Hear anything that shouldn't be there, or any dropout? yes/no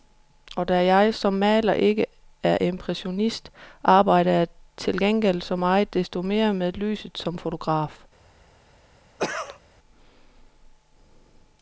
yes